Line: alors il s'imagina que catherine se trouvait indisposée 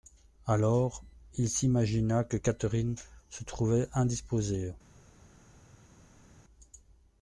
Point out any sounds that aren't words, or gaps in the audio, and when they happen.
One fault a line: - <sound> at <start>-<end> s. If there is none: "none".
none